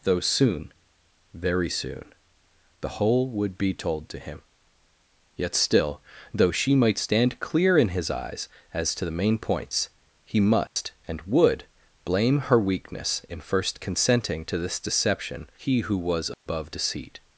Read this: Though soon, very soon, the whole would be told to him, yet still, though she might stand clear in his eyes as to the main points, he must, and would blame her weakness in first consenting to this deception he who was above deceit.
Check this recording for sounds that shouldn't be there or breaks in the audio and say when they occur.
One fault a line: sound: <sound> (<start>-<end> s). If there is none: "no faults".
sound: dropout (10.7-10.8 s)
sound: dropout (16.3-16.5 s)